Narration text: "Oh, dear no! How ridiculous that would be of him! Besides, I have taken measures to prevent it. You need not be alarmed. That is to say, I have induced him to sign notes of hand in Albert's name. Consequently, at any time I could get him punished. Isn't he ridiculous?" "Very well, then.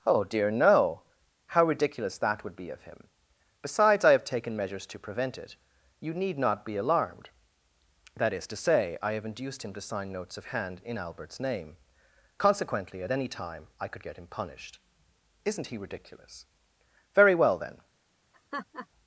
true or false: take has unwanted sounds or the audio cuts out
true